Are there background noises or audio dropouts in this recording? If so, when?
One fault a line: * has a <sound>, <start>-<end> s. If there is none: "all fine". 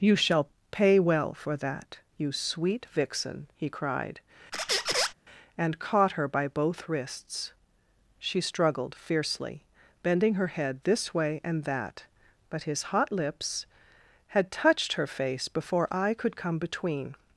* has a squeak, 4.5-5.1 s